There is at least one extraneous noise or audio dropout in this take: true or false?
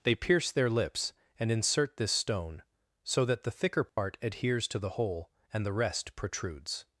true